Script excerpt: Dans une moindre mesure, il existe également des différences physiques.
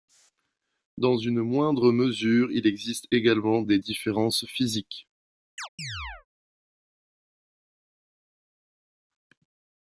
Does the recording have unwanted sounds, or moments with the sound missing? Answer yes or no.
yes